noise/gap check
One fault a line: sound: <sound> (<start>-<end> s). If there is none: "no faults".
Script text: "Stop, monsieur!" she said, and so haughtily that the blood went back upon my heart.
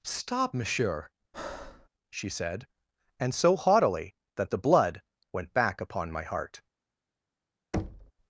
sound: breath (1.3-1.9 s)
sound: thud (7.7-8.1 s)